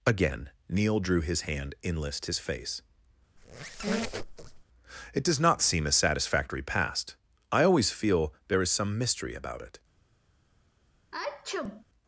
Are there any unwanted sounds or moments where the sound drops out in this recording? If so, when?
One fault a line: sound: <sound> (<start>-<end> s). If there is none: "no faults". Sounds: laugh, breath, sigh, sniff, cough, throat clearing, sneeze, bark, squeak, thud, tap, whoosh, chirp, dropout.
sound: squeak (3.4-4.6 s)
sound: sneeze (11.1-11.8 s)